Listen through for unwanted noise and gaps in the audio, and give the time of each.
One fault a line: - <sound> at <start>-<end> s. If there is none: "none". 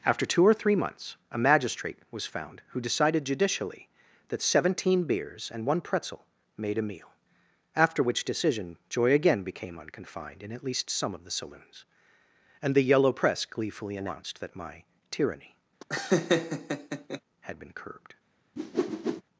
- laugh at 15.8-17.2 s
- whoosh at 18.6-19.2 s